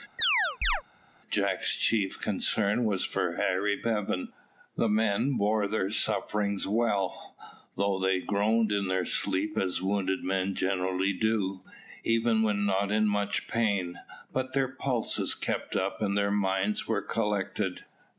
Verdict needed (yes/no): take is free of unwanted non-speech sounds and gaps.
no